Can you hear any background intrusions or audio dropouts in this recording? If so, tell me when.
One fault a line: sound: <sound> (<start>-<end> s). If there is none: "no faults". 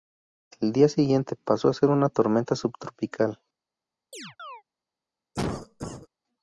sound: chirp (4.1-4.6 s)
sound: cough (5.3-6.1 s)